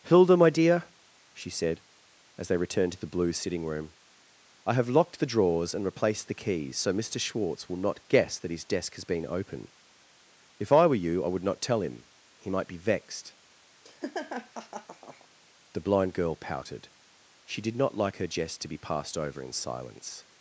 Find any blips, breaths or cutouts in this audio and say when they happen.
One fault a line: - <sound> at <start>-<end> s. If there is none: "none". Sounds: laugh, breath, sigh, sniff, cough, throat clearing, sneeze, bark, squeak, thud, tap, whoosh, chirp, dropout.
- laugh at 13.8-15.3 s